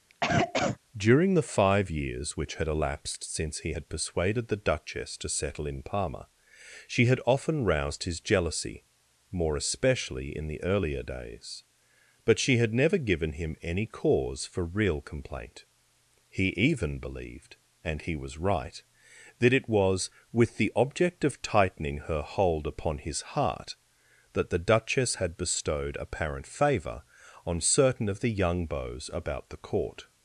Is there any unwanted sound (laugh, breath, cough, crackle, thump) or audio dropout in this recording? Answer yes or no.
yes